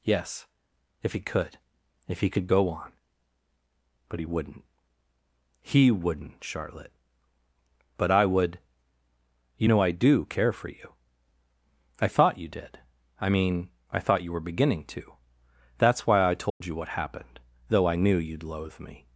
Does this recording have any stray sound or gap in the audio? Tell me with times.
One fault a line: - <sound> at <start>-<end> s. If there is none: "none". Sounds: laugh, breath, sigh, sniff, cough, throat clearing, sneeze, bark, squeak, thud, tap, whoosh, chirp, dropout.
- dropout at 16.5-16.6 s